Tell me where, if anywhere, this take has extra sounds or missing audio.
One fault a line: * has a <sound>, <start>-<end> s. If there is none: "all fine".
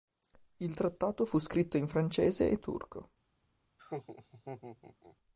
* has a laugh, 3.8-5.2 s